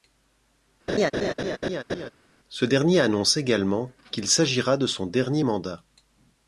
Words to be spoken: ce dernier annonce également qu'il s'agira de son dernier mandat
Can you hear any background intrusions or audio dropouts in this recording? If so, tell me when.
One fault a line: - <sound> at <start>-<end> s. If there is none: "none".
- laugh at 0.9-2.1 s